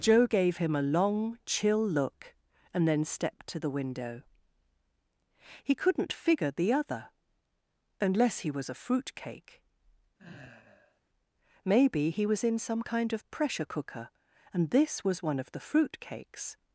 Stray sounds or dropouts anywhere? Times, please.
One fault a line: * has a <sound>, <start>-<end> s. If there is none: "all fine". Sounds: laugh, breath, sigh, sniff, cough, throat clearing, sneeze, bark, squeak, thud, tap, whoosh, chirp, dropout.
* has a sigh, 10.2-11.0 s